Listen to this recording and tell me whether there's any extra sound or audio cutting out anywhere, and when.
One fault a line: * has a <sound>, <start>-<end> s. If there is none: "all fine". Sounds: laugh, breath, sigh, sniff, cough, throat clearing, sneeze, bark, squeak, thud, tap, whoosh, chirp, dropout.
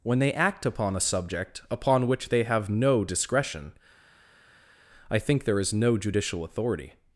all fine